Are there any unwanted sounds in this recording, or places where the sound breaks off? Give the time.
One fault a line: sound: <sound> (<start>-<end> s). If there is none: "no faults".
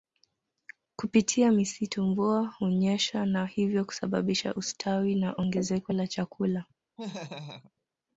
sound: laugh (7.0-7.7 s)